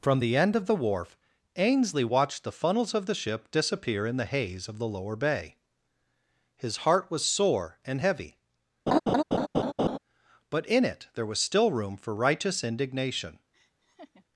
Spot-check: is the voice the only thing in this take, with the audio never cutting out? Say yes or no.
no